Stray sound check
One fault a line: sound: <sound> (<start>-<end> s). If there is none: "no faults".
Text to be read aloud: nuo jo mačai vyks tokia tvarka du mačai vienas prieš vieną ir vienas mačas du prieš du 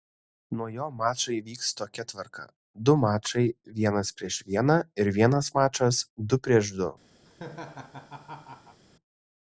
sound: laugh (7.3-8.8 s)